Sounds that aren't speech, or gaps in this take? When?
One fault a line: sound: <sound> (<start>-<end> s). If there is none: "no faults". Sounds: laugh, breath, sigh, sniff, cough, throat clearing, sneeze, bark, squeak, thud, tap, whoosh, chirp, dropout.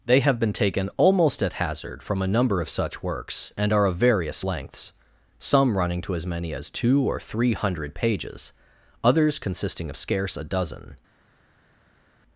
no faults